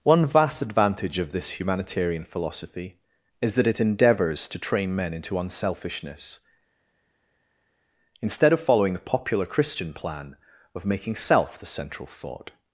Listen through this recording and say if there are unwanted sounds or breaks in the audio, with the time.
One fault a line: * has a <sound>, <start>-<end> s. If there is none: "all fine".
all fine